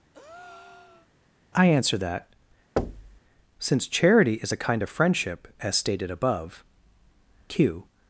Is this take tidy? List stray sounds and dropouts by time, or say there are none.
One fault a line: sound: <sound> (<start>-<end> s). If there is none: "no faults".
sound: breath (0.1-1.1 s)
sound: thud (2.8-3.2 s)